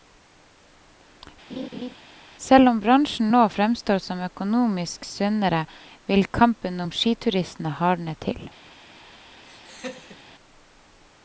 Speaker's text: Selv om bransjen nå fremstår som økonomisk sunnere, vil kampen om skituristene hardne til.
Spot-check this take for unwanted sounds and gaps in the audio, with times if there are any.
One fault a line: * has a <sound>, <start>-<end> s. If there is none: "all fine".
* has a laugh, 1.5-2.0 s
* has a laugh, 9.4-10.2 s